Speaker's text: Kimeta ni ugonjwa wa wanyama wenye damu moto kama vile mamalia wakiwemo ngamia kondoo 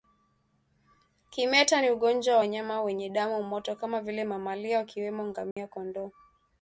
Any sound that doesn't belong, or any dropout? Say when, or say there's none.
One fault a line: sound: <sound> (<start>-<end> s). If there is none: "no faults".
sound: dropout (5.5-5.6 s)